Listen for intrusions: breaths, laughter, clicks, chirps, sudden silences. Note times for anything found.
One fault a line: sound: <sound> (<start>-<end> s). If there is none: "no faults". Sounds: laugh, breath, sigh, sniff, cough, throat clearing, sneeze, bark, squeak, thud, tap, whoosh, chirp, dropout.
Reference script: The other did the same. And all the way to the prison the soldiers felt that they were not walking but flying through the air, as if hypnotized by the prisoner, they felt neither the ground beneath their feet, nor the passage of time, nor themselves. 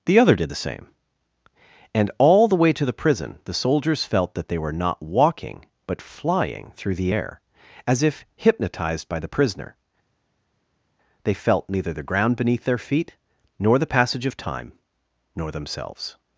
no faults